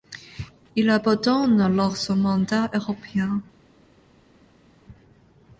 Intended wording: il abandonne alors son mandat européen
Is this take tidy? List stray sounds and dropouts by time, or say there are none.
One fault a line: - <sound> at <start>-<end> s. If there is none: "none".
none